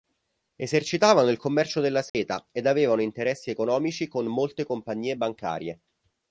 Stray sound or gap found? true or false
true